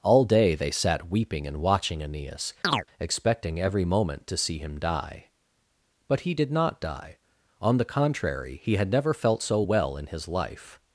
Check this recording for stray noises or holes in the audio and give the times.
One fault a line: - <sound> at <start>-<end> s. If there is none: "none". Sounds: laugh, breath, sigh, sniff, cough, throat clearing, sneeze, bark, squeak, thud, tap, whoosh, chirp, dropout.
- chirp at 2.6-2.9 s